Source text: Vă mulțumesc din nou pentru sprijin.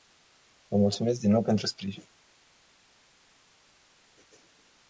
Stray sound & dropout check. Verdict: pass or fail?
pass